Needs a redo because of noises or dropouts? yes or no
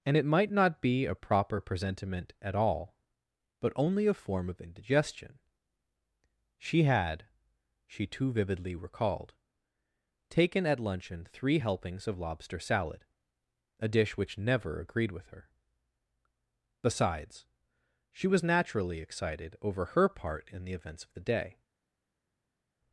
no